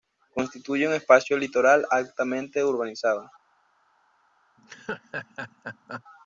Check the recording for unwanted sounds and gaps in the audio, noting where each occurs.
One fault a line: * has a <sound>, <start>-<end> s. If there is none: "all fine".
* has a laugh, 4.6-6.0 s